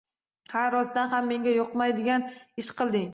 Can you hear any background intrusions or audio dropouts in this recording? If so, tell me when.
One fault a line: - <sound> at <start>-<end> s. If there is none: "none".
none